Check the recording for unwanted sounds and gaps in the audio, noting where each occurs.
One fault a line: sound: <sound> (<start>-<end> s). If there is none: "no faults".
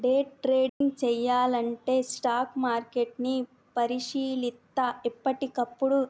sound: dropout (0.7-0.8 s)